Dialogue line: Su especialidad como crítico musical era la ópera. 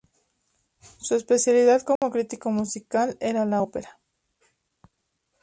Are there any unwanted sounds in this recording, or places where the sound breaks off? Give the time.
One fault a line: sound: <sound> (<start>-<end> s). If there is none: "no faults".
sound: dropout (2.0-2.0 s)